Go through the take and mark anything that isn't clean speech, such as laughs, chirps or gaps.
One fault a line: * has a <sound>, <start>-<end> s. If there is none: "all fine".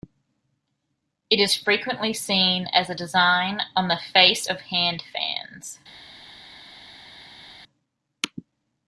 all fine